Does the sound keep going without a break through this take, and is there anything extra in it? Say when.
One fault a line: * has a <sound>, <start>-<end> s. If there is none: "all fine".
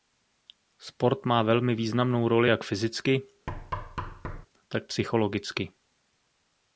* has a thud, 3.5-4.5 s